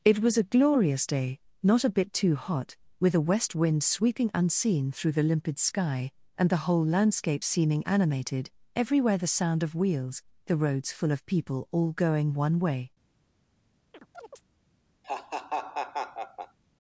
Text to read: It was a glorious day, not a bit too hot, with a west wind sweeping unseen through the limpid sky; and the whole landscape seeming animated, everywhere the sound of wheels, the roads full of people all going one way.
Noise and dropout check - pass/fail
fail